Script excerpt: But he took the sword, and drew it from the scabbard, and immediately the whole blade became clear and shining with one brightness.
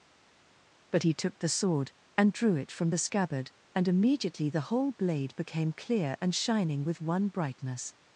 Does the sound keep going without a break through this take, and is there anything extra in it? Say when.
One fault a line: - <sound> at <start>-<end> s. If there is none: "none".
none